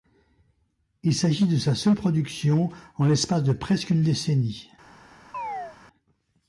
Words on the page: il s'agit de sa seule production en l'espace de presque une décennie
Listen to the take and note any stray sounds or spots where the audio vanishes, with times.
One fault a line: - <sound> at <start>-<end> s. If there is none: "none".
- chirp at 5.3-5.8 s